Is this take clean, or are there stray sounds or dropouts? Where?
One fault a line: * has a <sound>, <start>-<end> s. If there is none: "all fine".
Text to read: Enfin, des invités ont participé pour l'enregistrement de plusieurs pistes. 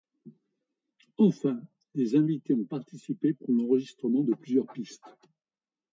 all fine